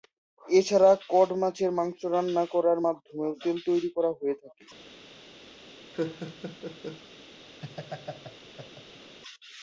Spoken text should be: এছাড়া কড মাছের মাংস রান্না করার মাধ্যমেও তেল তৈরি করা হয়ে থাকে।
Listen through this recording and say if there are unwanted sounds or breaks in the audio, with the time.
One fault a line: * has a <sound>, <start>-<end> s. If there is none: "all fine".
* has a laugh, 5.9-7.0 s
* has a laugh, 7.6-9.1 s